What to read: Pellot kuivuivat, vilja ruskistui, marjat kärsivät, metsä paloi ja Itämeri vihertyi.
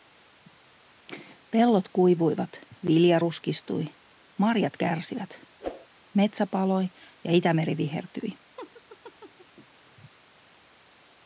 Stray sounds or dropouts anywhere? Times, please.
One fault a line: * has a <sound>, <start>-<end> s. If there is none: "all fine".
* has a whoosh, 5.6-5.9 s
* has a laugh, 8.6-9.7 s